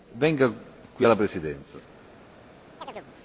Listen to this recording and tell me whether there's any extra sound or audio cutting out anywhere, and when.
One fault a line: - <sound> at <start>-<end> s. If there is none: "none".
- chirp at 2.8-3.1 s